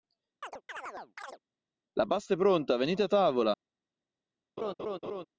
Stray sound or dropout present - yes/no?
yes